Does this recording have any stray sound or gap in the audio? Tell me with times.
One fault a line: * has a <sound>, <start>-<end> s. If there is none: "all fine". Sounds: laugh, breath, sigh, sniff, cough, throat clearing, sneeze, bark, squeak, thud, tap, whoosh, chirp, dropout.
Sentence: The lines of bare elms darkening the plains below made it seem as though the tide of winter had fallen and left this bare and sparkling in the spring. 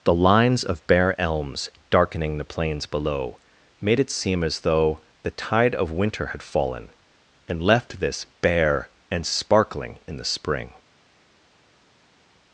all fine